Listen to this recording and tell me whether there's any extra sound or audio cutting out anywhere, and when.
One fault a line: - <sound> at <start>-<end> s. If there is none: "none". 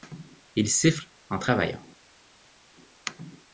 none